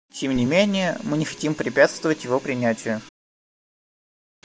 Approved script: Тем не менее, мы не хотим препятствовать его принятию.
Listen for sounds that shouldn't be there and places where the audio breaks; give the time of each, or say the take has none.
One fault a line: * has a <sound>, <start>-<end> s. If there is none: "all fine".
all fine